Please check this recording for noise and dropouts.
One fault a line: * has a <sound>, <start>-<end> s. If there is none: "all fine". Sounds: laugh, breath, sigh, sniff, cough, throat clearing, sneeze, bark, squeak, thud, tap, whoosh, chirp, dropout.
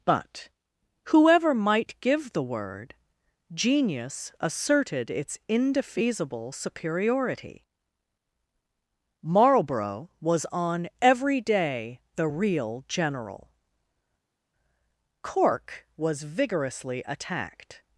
all fine